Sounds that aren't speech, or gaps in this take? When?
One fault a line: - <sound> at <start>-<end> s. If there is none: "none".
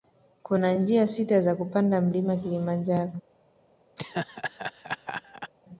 - laugh at 4.0-5.5 s